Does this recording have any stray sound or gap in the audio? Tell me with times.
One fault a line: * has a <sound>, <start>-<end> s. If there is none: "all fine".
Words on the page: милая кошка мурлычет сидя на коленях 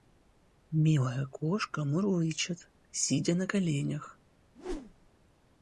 * has a whoosh, 4.5-5.1 s